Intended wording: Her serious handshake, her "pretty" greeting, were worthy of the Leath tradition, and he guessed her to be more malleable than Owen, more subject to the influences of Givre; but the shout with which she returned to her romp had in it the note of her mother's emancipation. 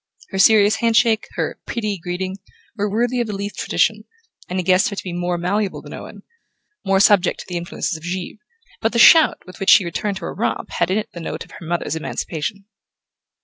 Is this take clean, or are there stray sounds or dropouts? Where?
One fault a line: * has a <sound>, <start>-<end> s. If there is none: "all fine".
all fine